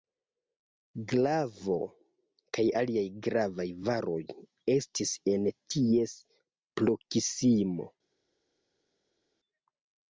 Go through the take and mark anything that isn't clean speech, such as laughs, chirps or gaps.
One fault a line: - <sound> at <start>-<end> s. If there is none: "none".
none